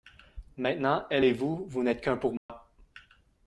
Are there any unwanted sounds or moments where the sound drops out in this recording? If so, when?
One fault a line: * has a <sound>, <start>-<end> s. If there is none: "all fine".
* has a dropout, 2.4-2.5 s